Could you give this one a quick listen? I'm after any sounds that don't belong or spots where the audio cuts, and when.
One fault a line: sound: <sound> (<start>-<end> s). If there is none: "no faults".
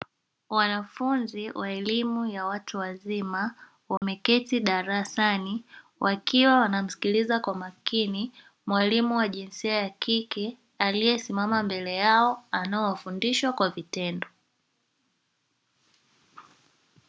sound: dropout (4.0-4.0 s)